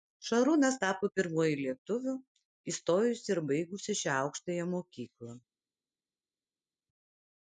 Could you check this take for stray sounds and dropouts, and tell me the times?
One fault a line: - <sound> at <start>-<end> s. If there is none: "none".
none